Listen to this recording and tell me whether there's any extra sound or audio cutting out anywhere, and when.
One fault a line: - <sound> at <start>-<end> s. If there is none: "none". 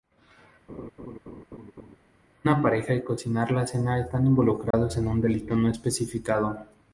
- laugh at 0.7-2.0 s
- dropout at 4.7-4.7 s